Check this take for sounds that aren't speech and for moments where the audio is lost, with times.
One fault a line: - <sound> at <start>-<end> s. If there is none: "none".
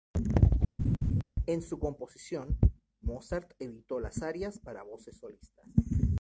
- laugh at 0.8-1.2 s